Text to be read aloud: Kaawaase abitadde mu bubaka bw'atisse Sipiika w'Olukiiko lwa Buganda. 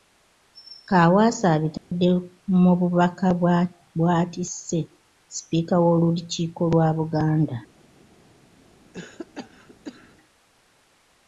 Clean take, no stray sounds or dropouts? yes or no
no